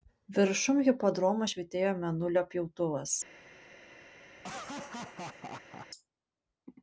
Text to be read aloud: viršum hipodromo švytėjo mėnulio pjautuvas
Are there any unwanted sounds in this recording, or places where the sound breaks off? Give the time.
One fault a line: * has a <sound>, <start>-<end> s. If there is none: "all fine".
* has a laugh, 4.4-5.9 s